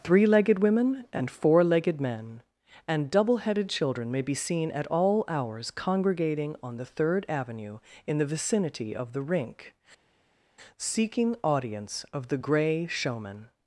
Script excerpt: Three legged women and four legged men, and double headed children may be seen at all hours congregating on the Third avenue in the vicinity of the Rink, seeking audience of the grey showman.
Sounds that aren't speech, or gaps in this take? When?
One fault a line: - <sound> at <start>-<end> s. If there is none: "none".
none